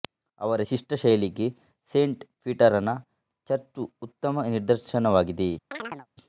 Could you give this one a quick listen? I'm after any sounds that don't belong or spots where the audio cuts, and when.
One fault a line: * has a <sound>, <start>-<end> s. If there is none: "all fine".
* has a chirp, 5.7-6.1 s